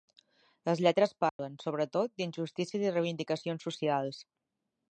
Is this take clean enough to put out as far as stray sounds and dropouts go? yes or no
no